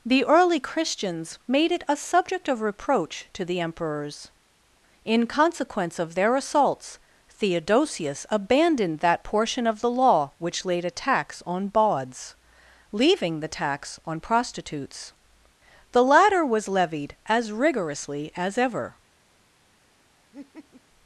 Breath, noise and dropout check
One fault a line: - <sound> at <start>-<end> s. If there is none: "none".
- laugh at 20.3-20.8 s